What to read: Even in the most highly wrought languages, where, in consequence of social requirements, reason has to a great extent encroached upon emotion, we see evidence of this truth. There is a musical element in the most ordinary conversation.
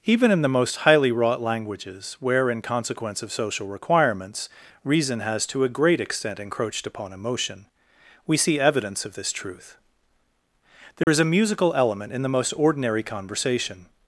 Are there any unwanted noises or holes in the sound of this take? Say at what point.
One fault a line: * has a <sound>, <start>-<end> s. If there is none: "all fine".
* has a dropout, 11.0-11.1 s